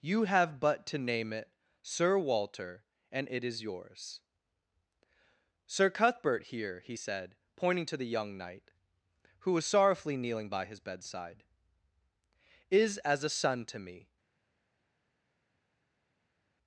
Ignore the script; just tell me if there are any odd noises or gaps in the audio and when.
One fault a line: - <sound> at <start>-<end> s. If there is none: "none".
none